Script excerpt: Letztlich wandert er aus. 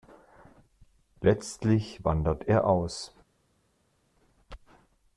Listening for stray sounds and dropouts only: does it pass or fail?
pass